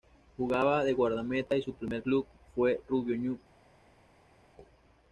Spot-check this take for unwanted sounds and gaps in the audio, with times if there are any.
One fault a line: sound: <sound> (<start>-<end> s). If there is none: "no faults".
no faults